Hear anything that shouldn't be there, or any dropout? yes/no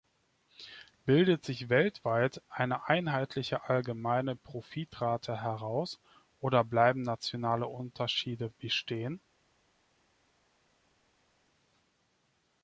no